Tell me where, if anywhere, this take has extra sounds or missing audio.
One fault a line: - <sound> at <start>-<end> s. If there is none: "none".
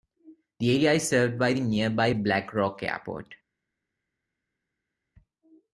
none